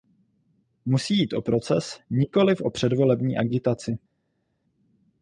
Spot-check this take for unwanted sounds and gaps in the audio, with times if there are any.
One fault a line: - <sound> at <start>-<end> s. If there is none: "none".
none